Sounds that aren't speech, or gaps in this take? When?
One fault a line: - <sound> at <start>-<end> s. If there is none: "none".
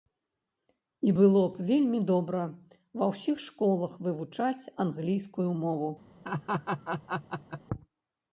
- laugh at 6.2-7.6 s